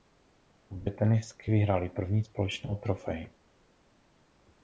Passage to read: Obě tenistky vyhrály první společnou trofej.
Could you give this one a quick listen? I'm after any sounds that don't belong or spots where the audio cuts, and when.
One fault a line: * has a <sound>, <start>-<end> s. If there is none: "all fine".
all fine